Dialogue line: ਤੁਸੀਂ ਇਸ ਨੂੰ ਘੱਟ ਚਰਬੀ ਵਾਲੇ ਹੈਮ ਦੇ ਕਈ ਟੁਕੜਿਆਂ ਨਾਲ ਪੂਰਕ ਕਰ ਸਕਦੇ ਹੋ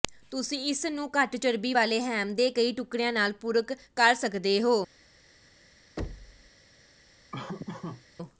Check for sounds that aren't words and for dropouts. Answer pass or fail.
fail